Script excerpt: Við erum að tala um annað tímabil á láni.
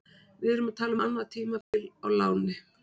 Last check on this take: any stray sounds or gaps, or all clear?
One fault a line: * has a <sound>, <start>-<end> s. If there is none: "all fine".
* has a dropout, 1.6-1.7 s